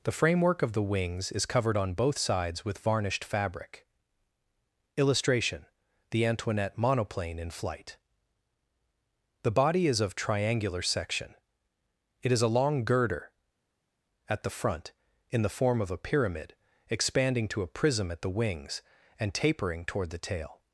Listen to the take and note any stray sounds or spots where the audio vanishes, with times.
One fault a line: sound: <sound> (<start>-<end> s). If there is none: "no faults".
no faults